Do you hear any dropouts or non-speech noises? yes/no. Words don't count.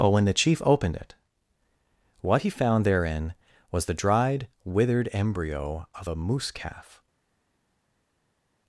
no